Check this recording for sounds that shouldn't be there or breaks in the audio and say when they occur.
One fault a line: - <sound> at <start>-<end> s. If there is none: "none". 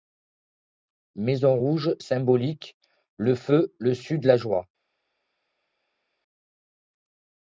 none